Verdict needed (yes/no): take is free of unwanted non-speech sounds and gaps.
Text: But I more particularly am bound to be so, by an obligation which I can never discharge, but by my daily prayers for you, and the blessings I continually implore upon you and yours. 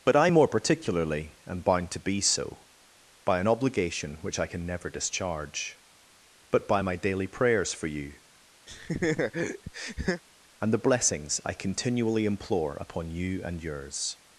no